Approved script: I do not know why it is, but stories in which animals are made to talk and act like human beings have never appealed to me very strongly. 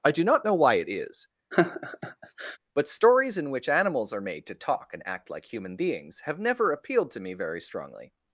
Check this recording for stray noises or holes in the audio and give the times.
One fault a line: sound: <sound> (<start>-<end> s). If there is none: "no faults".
sound: laugh (1.5-2.6 s)